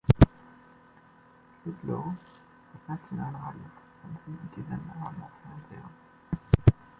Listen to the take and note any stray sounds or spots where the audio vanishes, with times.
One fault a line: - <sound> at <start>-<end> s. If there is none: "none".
none